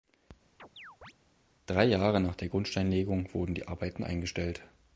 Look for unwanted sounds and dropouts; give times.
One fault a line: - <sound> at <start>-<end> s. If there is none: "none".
- chirp at 0.6-1.1 s